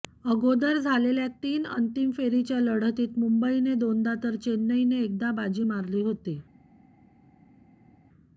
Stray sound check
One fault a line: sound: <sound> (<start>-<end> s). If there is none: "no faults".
no faults